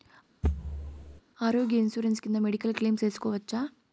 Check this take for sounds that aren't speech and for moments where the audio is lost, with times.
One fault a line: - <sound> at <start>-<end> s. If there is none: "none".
- thud at 0.4-1.2 s